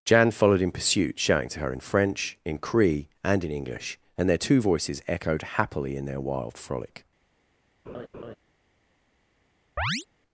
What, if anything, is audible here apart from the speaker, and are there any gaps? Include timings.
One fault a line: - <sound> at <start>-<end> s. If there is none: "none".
- laugh at 7.9-8.4 s
- chirp at 9.8-10.1 s